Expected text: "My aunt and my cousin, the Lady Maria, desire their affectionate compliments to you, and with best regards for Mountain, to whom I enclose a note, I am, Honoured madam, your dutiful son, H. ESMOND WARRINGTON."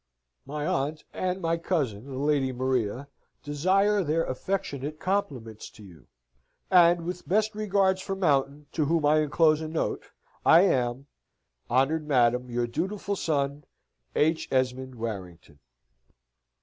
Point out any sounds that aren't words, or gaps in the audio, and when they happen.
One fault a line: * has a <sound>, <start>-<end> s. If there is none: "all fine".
all fine